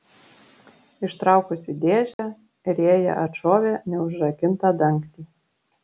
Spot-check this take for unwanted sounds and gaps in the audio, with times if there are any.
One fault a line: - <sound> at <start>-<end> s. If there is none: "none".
- dropout at 2.1-2.2 s